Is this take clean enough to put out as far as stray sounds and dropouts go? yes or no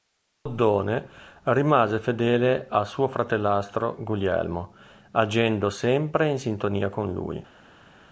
yes